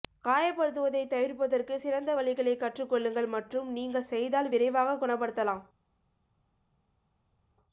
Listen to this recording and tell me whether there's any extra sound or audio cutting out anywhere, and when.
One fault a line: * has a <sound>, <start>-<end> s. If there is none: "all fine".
all fine